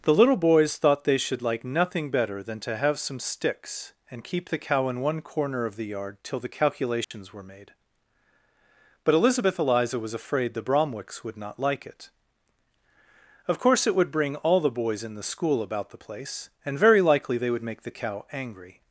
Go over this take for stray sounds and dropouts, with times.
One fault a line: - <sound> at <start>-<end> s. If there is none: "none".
- dropout at 7.0-7.1 s